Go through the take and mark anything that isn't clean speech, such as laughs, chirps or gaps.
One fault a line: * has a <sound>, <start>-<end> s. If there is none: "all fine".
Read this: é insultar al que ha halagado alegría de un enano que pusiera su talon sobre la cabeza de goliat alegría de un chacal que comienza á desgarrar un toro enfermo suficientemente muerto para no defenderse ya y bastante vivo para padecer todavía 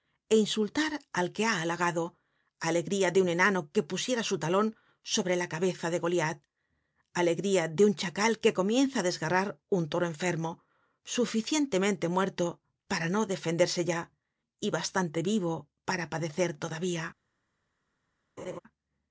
* has a laugh, 18.4-18.6 s